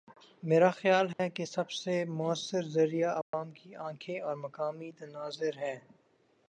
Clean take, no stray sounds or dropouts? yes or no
no